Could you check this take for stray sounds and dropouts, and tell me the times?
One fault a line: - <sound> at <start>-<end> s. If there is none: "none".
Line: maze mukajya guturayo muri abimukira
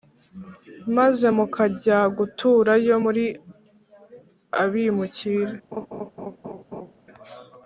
- laugh at 5.7-6.9 s